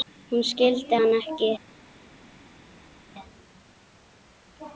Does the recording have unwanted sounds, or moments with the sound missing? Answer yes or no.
no